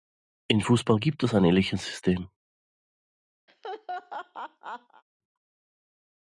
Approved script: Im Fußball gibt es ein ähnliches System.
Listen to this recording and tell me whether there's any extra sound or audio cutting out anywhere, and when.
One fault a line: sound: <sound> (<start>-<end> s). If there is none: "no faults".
sound: laugh (3.5-5.0 s)